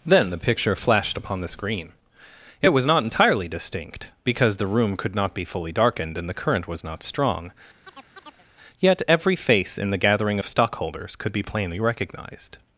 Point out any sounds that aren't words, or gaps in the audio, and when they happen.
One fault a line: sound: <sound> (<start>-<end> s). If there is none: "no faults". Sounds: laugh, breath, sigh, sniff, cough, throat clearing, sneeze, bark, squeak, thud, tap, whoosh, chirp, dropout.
sound: chirp (7.8-8.5 s)